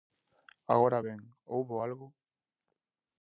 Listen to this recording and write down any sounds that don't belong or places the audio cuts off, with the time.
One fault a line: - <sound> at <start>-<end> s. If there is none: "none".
none